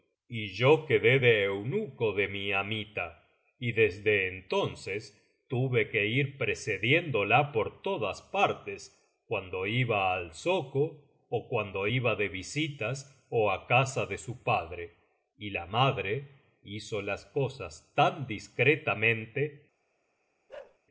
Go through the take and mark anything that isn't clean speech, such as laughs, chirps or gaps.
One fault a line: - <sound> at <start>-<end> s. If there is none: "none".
- bark at 20.5-20.8 s